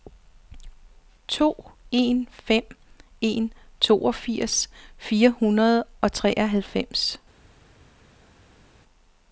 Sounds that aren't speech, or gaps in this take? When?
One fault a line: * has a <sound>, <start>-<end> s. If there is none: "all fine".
all fine